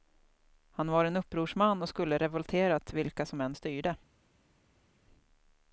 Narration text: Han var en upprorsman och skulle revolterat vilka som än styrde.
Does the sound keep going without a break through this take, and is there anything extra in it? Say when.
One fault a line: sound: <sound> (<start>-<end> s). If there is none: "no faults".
no faults